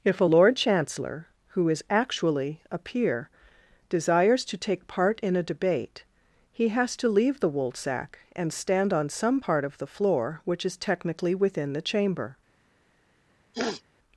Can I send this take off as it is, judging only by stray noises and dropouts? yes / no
no